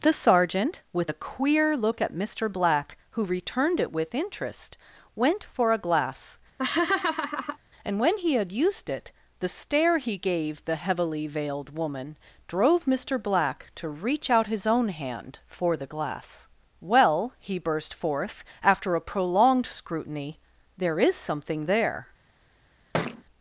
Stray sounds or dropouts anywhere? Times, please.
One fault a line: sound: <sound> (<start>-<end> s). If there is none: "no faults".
sound: laugh (6.6-7.6 s)
sound: thud (22.9-23.2 s)